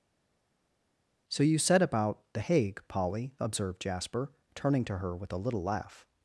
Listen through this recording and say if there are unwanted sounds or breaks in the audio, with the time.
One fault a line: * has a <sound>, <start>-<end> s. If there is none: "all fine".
all fine